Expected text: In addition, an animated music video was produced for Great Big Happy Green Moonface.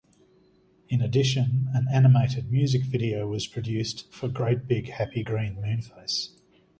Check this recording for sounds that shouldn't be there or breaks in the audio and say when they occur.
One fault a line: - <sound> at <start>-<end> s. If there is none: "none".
none